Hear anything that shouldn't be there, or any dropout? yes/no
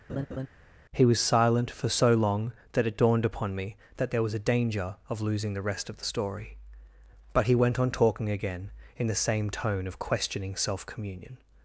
yes